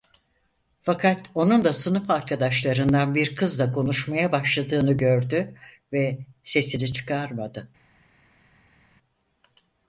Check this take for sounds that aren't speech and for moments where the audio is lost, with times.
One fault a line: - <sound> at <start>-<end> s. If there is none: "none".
none